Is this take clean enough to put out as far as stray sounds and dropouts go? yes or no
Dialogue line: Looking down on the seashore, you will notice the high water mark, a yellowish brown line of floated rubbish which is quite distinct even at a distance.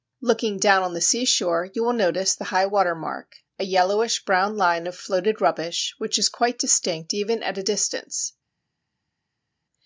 yes